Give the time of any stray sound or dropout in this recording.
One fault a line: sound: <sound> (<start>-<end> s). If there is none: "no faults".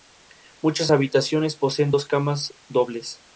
no faults